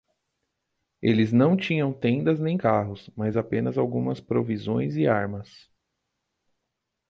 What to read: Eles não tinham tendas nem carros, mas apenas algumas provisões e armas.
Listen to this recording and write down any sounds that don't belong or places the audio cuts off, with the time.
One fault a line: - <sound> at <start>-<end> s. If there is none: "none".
none